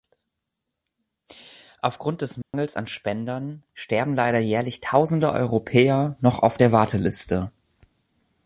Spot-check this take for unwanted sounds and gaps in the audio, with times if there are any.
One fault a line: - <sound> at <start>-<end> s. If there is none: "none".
- dropout at 2.4-2.5 s